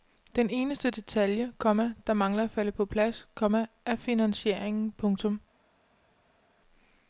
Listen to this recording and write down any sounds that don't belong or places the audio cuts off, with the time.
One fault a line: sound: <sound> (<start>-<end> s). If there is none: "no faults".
no faults